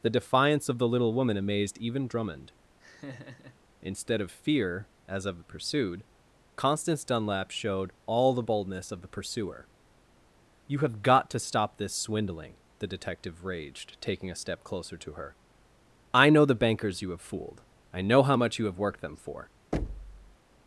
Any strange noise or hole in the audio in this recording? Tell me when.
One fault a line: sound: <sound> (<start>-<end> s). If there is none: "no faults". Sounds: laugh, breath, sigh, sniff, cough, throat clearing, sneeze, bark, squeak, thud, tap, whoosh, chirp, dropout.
sound: laugh (2.8-3.6 s)
sound: thud (19.7-20.4 s)